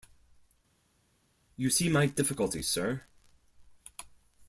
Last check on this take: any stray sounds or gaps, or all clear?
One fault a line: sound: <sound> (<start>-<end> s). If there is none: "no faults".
no faults